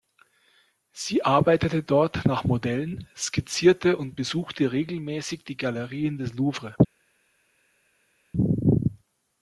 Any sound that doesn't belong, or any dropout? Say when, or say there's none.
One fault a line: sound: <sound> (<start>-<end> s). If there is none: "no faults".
no faults